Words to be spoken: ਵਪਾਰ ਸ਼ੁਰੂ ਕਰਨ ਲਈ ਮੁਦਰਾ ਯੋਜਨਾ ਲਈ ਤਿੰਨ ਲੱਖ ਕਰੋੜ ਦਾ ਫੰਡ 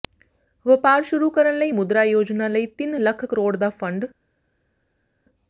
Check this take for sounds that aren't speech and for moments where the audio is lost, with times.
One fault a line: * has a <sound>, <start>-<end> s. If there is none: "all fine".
all fine